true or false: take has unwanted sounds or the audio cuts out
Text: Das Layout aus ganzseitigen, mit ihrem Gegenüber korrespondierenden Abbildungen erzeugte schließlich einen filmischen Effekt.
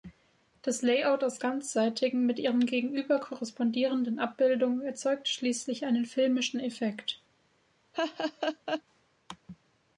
true